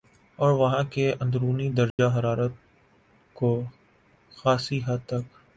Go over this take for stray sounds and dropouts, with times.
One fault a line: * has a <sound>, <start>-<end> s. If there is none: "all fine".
* has a dropout, 1.9-2.0 s